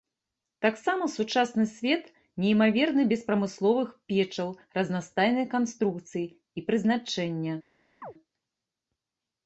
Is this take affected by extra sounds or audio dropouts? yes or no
yes